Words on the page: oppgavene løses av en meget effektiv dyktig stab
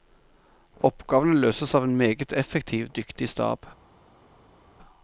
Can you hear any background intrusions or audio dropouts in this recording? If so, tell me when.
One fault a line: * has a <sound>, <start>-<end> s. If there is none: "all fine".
all fine